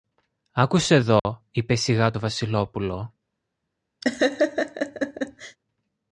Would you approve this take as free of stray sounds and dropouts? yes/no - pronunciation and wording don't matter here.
no